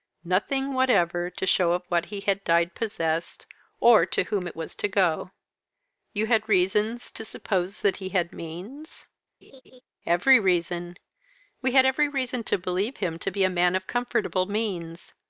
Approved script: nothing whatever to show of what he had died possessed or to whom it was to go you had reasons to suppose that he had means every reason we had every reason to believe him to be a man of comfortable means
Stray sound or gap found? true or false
true